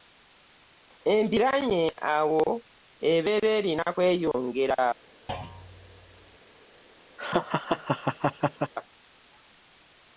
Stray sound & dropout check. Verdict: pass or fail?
fail